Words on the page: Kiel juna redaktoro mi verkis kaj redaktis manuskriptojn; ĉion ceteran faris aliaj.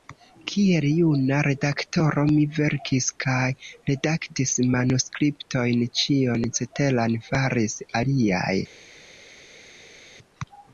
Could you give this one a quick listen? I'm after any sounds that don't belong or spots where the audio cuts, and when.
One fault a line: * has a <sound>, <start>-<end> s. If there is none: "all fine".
all fine